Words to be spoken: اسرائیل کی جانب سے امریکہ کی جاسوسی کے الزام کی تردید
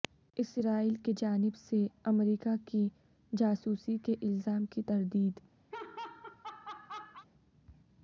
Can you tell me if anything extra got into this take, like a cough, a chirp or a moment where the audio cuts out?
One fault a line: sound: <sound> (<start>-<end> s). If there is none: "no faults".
sound: laugh (5.7-7.3 s)